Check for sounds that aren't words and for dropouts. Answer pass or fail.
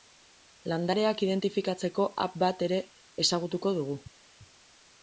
pass